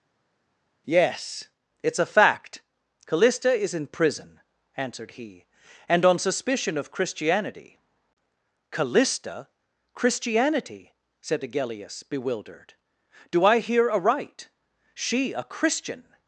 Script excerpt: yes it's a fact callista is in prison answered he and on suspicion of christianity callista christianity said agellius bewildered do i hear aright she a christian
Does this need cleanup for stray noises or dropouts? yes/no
no